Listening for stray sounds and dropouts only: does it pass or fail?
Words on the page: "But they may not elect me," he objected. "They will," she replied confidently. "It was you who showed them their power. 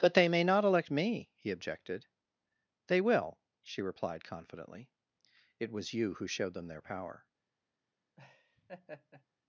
fail